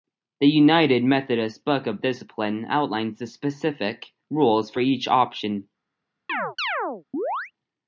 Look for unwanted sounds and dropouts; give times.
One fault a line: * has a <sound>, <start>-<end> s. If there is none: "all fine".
* has a chirp, 6.3-7.5 s